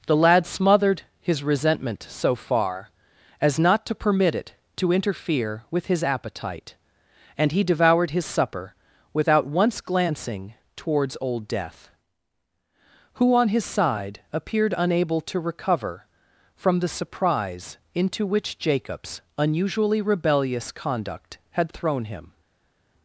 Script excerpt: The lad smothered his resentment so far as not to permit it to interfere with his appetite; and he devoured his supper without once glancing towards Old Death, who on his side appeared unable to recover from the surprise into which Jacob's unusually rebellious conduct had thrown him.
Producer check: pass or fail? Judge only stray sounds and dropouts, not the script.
pass